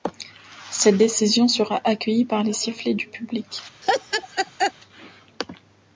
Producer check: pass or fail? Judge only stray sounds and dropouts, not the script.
fail